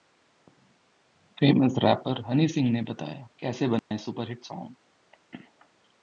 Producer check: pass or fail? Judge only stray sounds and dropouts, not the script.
fail